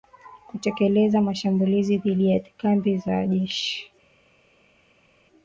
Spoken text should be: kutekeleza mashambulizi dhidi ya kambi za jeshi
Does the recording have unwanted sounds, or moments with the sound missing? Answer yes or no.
no